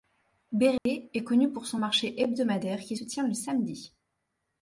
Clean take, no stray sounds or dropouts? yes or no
no